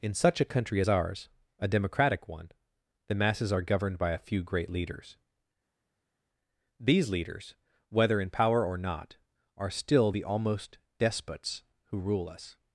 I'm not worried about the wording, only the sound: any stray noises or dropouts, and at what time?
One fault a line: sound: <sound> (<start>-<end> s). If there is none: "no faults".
no faults